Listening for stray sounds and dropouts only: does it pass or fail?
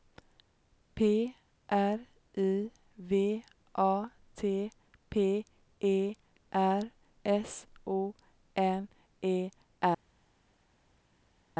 pass